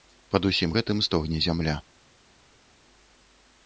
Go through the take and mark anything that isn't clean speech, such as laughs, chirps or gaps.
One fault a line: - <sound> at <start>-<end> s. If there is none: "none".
none